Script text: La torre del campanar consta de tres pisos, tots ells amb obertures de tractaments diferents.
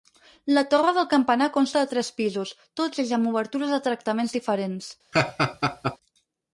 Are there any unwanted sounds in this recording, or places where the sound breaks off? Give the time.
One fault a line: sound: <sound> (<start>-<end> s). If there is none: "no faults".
sound: laugh (5.1-6.0 s)